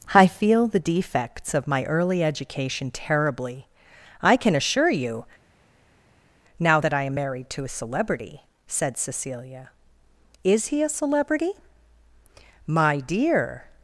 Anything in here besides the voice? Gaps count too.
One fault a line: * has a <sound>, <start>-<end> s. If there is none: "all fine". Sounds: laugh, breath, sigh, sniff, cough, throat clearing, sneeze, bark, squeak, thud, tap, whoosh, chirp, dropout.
all fine